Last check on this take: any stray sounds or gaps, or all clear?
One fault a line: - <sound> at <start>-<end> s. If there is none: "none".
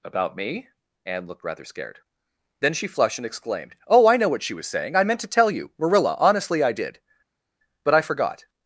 none